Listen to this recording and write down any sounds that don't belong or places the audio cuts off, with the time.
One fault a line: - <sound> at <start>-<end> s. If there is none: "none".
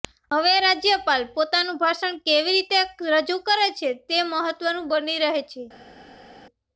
none